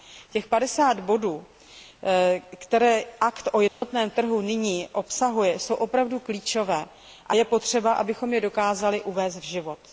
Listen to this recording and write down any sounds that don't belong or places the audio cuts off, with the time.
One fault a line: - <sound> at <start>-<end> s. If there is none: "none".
- dropout at 3.7-3.8 s